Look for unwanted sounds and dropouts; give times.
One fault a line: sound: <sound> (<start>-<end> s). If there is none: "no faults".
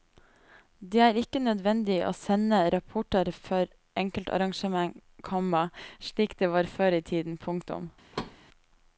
sound: thud (8.1-8.4 s)